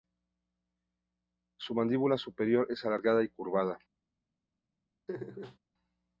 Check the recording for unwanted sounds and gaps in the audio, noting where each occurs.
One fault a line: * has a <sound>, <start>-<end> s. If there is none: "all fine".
* has a laugh, 5.1-5.6 s